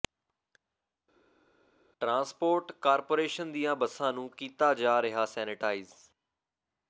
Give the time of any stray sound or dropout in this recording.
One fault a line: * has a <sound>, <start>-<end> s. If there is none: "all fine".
all fine